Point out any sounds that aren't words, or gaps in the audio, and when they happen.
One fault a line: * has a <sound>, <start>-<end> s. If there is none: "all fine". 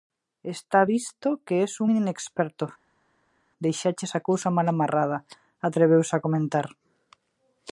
all fine